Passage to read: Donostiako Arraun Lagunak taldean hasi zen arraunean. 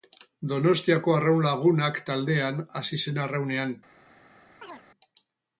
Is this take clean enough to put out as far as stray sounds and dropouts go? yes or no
no